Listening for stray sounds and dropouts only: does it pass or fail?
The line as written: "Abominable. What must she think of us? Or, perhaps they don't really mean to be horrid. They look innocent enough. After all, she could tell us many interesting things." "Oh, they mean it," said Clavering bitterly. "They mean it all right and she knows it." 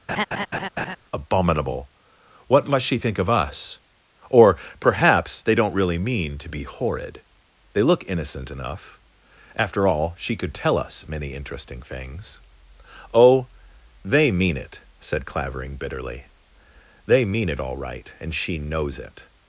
fail